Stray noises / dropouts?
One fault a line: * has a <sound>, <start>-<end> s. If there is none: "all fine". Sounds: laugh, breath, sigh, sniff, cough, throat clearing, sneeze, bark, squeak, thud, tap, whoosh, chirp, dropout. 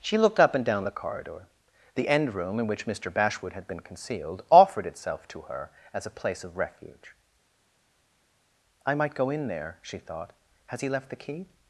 all fine